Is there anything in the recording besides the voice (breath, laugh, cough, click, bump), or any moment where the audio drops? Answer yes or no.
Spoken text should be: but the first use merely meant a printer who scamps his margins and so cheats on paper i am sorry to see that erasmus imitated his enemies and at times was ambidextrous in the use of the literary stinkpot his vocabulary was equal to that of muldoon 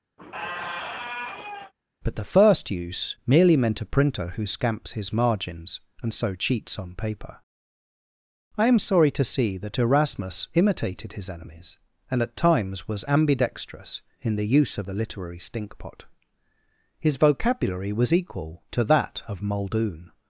yes